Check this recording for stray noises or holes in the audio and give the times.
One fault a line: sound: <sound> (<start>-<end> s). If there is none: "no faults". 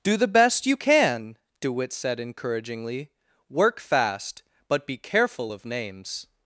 no faults